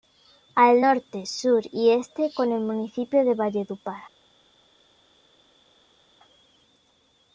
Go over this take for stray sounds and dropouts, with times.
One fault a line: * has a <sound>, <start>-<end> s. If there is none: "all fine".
all fine